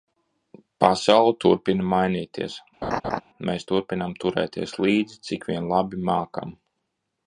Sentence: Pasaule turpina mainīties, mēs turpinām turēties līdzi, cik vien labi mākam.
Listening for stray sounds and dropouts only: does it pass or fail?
fail